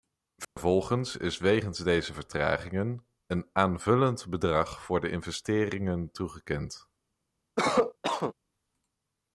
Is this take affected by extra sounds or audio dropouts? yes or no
yes